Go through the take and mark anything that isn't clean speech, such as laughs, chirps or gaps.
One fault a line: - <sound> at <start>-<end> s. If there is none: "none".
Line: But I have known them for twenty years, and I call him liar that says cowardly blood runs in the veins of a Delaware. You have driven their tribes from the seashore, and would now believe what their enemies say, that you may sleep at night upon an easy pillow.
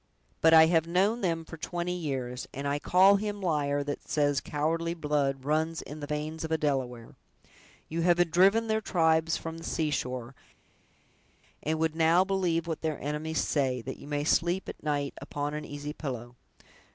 none